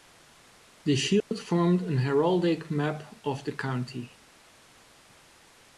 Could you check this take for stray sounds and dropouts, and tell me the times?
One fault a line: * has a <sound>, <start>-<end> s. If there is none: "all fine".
* has a dropout, 1.2-1.3 s